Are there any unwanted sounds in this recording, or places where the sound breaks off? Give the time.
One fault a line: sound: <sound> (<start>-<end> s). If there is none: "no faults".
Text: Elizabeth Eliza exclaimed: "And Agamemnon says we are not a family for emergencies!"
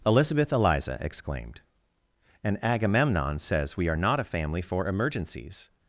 no faults